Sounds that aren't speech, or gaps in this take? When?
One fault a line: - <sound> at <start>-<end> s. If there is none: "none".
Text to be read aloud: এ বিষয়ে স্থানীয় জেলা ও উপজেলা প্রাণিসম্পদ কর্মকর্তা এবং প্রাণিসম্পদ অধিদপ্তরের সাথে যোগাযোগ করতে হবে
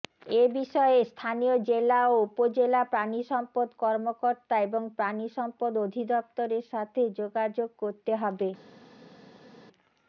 none